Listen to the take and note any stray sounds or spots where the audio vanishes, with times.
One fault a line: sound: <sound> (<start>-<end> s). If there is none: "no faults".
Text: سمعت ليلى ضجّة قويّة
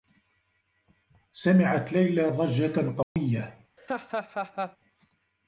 sound: dropout (3.0-3.2 s)
sound: laugh (3.8-4.8 s)